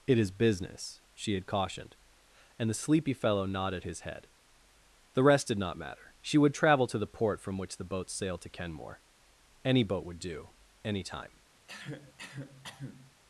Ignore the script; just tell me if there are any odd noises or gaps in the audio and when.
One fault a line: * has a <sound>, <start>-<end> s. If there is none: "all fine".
* has a cough, 11.7-13.1 s